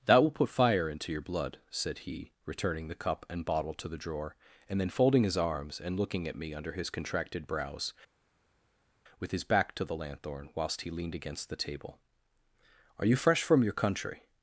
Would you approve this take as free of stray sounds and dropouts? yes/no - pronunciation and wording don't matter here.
yes